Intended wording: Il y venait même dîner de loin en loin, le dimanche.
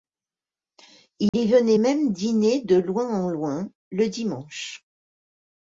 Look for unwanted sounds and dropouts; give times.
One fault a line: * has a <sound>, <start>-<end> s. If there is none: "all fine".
* has a dropout, 1.3-1.3 s